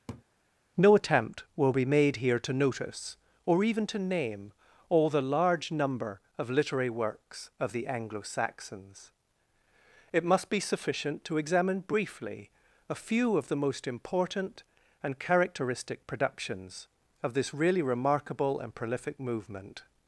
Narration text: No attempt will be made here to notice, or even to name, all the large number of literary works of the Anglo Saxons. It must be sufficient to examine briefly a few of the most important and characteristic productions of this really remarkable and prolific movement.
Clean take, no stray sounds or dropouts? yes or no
no